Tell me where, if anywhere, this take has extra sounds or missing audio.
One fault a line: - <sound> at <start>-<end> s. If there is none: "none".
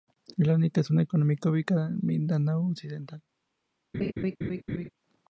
- laugh at 3.9-4.9 s